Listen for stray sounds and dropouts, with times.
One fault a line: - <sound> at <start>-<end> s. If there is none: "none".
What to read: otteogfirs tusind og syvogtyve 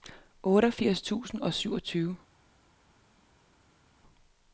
none